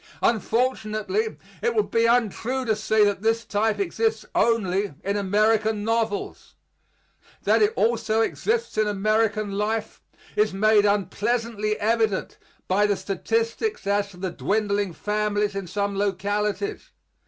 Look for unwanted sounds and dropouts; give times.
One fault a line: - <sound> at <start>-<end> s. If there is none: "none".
none